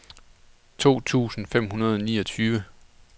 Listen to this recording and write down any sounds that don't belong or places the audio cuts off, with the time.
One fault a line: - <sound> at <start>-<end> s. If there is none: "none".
none